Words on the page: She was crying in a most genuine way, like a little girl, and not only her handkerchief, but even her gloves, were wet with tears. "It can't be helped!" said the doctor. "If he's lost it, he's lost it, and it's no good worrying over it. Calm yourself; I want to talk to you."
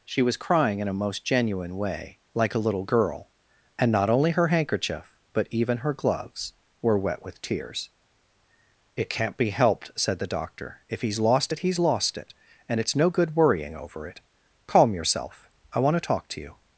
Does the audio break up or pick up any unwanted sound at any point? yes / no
no